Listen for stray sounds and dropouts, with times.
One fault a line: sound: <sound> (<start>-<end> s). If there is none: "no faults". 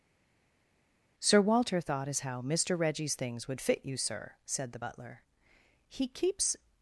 no faults